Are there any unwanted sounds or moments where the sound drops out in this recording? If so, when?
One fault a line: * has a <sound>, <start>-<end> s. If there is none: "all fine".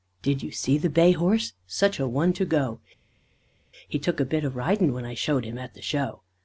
all fine